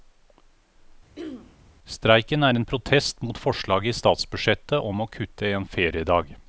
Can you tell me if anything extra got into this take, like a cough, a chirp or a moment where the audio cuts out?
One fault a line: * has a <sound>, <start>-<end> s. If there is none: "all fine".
* has a throat clearing, 1.2-1.6 s